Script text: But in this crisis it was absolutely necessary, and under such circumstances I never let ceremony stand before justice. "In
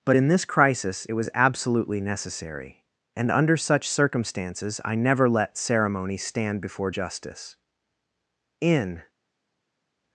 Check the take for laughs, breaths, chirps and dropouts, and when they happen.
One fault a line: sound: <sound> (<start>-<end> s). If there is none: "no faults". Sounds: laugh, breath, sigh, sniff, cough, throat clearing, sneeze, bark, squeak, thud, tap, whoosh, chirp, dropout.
no faults